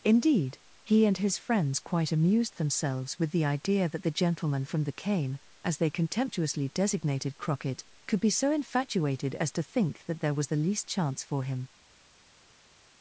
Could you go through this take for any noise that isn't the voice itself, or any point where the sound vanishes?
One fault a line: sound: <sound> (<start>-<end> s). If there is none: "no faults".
no faults